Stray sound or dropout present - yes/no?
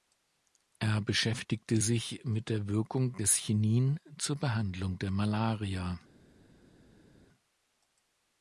no